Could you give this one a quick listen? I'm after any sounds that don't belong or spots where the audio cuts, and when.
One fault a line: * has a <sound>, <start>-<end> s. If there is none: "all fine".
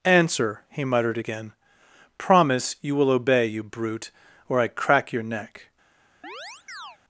* has a chirp, 6.2-7.0 s